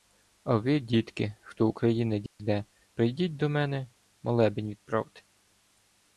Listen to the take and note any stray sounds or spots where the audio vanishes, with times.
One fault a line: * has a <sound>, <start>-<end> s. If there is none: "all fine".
* has a dropout, 2.3-2.4 s